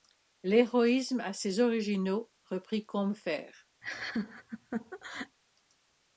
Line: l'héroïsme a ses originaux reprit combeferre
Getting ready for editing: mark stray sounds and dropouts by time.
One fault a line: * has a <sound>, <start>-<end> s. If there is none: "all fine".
* has a laugh, 3.8-5.4 s